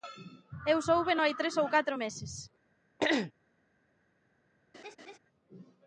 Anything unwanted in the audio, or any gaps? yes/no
yes